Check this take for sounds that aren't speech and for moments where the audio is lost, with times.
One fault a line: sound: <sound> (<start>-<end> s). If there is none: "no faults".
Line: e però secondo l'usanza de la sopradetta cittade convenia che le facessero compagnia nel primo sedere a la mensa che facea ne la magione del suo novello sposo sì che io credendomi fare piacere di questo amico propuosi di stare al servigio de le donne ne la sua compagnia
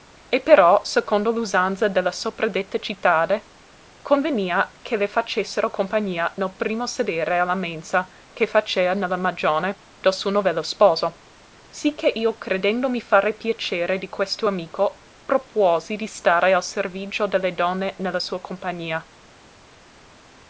no faults